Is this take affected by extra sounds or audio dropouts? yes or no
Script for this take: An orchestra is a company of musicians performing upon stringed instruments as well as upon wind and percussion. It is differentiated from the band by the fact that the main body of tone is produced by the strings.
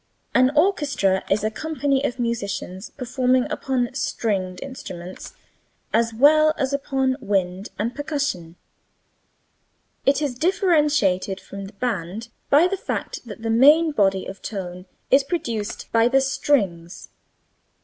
no